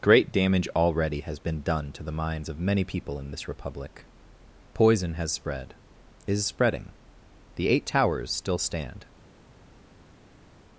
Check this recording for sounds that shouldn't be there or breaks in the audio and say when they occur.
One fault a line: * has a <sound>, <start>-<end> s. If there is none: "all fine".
all fine